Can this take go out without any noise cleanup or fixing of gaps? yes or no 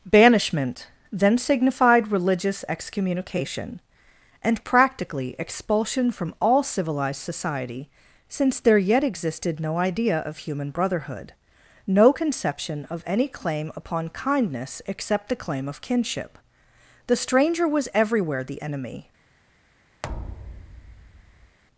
no